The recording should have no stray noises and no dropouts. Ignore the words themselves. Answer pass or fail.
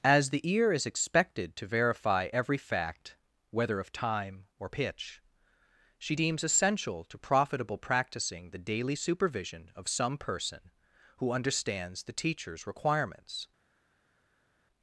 pass